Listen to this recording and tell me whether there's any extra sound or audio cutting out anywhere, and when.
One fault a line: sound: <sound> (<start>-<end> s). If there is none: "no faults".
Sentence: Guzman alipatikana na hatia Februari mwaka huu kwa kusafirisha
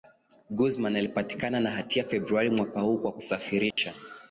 sound: dropout (3.7-3.8 s)